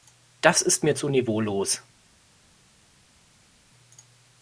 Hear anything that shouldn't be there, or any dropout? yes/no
no